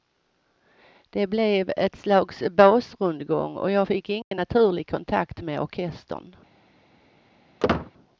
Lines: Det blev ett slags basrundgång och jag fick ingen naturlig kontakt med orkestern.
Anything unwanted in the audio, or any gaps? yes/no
yes